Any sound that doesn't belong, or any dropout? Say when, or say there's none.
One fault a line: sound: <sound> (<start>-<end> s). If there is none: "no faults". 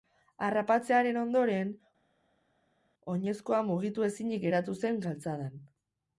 no faults